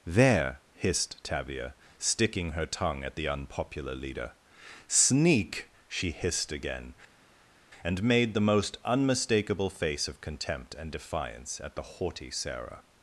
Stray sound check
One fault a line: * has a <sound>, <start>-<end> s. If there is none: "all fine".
all fine